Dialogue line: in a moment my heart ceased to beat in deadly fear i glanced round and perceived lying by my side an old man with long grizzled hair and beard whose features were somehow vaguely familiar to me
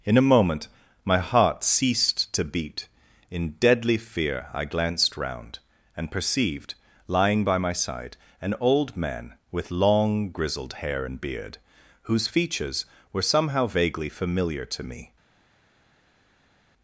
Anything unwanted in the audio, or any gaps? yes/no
no